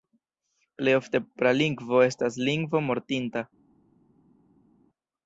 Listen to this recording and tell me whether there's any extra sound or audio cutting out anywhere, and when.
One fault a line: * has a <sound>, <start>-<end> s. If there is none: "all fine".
all fine